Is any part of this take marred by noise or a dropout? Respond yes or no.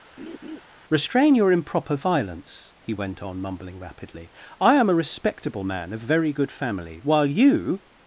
yes